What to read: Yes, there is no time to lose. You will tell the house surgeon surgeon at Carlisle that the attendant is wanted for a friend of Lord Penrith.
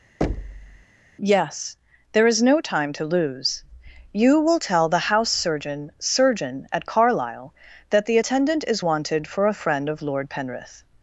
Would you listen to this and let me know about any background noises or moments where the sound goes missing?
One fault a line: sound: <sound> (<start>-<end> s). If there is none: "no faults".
sound: thud (0.2-0.9 s)